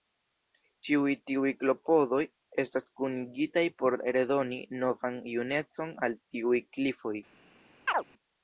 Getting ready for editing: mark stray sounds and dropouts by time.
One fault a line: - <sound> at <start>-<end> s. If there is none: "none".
- chirp at 7.9-8.0 s